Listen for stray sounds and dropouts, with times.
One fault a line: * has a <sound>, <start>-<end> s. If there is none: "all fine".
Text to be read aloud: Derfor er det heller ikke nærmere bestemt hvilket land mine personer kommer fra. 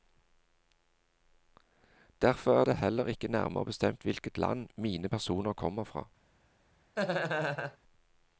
* has a laugh, 7.0-7.8 s